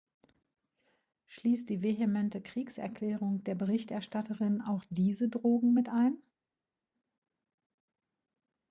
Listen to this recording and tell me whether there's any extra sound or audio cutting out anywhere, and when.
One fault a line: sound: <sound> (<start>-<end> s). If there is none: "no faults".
no faults